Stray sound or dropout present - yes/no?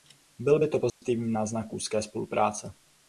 yes